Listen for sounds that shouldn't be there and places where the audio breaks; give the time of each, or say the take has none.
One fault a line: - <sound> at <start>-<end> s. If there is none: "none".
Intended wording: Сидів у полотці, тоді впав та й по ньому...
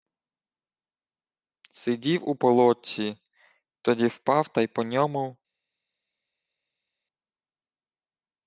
none